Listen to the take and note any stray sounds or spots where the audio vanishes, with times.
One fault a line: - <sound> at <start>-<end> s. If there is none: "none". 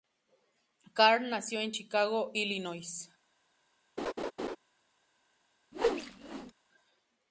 - laugh at 4.0-4.6 s
- whoosh at 5.7-6.5 s